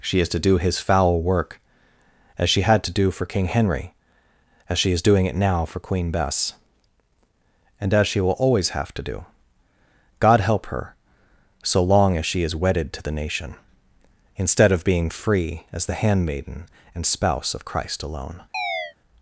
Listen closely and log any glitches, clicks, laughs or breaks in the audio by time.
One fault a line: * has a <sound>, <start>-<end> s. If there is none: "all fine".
* has a chirp, 18.5-18.9 s